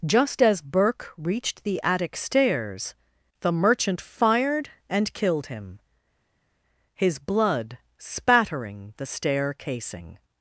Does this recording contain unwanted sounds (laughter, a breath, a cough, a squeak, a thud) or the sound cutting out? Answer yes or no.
no